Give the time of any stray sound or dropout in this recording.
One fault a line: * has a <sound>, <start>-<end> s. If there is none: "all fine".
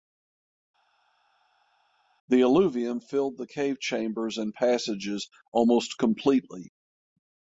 all fine